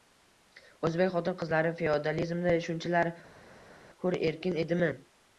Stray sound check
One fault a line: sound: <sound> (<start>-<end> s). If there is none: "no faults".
no faults